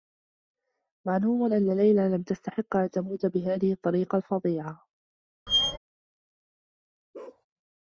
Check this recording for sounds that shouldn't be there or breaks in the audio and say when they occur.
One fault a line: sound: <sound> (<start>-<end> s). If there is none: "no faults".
sound: squeak (5.5-5.8 s)
sound: bark (7.1-7.5 s)